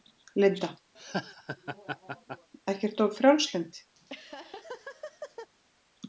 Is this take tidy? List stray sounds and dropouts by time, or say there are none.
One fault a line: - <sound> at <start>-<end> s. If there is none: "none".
- laugh at 0.9-2.5 s
- laugh at 3.9-5.5 s